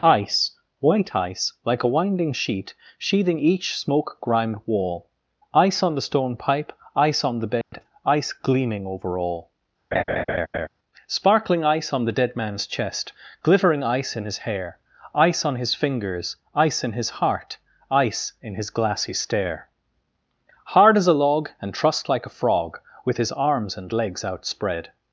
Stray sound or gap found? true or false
true